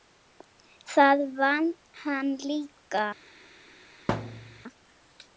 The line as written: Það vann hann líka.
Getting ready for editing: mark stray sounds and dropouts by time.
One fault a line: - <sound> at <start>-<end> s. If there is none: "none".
- thud at 4.1-4.6 s